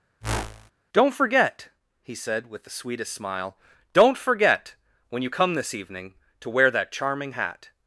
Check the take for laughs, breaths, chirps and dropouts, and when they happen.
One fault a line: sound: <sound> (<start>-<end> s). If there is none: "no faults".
sound: whoosh (0.2-0.7 s)